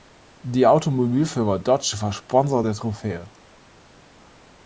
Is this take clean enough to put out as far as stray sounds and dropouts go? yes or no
yes